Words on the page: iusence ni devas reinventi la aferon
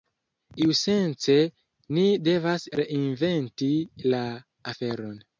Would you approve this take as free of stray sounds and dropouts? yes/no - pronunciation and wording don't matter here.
yes